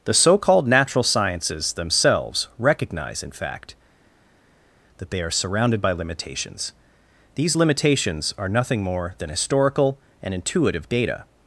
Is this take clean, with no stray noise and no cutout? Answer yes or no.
yes